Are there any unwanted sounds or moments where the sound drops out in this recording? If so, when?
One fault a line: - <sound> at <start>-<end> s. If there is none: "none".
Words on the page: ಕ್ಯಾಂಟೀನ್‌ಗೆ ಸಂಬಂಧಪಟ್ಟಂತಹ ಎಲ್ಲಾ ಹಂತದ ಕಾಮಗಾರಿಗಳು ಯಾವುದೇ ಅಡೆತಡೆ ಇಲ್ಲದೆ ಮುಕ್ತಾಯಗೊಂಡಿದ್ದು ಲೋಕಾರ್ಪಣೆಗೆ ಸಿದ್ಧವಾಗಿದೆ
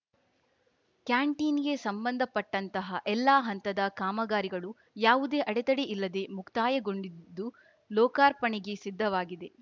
none